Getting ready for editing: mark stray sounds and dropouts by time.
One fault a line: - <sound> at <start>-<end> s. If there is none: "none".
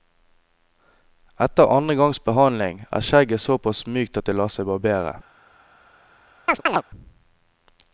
- chirp at 6.5-6.8 s